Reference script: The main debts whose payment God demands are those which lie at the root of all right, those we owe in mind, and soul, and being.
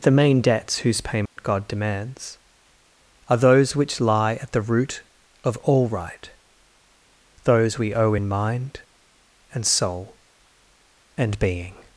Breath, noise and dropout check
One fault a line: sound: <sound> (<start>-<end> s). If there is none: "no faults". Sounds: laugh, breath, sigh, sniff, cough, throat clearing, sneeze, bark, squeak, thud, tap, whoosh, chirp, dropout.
sound: dropout (1.3-1.4 s)